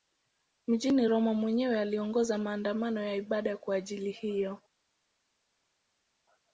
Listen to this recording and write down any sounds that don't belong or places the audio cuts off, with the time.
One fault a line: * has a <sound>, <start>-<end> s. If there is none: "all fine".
all fine